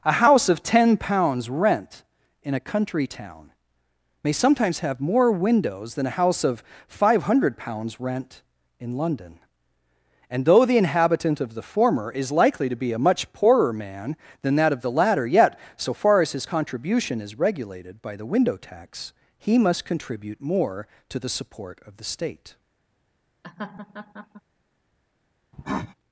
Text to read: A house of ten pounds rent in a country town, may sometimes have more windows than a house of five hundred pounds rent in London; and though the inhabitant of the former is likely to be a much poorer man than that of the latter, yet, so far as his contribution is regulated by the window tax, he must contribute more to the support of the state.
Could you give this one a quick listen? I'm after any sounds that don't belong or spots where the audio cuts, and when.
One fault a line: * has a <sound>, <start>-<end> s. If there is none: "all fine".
* has a laugh, 23.4-24.4 s
* has a cough, 25.5-25.9 s